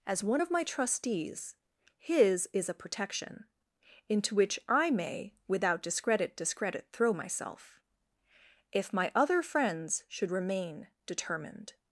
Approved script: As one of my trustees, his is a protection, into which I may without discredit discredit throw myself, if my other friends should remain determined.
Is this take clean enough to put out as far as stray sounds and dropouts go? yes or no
yes